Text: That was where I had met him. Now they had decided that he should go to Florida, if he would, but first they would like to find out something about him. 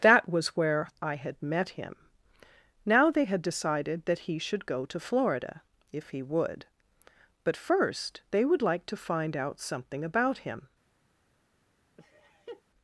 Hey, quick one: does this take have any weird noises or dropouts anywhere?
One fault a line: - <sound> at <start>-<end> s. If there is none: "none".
- laugh at 12.0-12.6 s